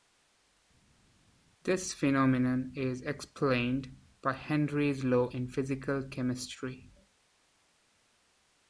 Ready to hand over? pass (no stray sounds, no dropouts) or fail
pass